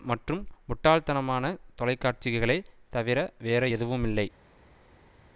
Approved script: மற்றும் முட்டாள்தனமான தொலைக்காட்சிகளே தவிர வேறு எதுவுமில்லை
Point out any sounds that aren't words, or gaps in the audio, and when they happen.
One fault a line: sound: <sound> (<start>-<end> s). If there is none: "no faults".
no faults